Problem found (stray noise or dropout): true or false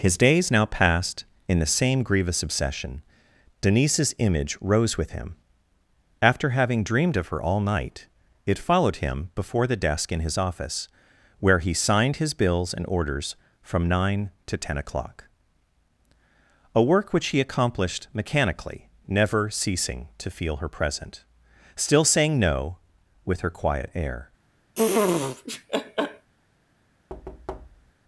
true